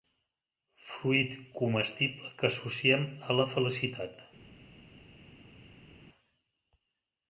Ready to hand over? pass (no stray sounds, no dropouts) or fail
pass